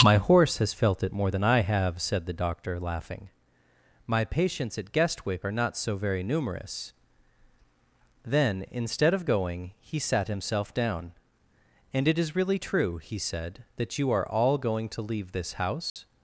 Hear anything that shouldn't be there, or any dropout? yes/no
yes